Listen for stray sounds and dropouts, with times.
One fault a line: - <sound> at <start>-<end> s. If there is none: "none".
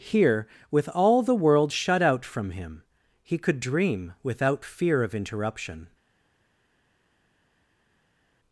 none